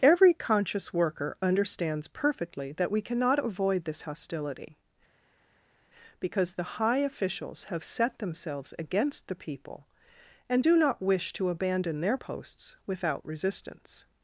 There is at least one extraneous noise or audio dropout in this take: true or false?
false